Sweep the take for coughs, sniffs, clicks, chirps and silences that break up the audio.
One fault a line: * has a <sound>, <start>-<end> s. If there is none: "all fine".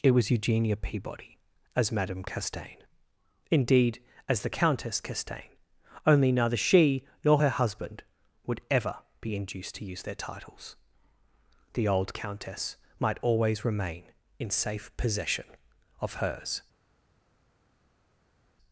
all fine